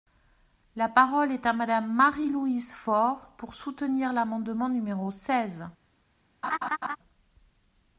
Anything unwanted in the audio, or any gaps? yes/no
yes